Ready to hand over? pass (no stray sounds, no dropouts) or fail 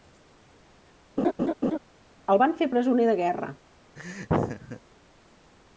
fail